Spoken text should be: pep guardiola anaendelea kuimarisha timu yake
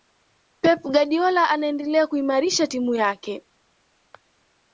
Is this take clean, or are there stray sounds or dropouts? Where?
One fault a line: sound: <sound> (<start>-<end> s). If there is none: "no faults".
no faults